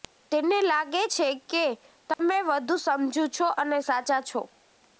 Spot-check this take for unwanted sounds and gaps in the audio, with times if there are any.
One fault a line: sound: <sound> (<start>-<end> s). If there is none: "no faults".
sound: dropout (2.1-2.2 s)